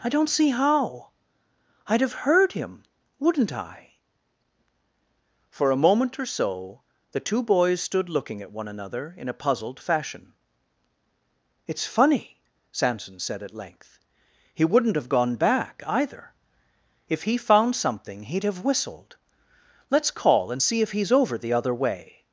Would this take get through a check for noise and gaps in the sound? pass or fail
pass